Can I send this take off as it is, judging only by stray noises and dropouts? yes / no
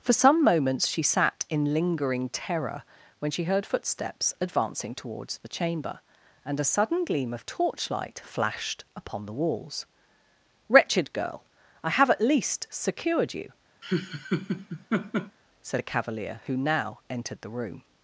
no